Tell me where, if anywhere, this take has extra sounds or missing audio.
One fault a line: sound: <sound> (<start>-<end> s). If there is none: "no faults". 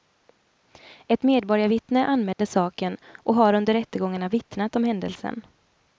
sound: dropout (2.3-2.4 s)